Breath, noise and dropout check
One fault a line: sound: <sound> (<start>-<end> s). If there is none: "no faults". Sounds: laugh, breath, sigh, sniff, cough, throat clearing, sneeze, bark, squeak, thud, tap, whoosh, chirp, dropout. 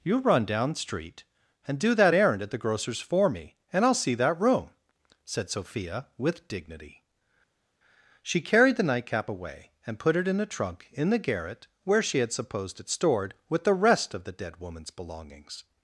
no faults